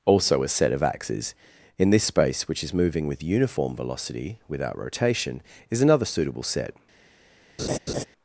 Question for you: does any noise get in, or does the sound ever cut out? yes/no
yes